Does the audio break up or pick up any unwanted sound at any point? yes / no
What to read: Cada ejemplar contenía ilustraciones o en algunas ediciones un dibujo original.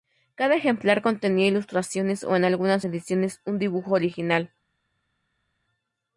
no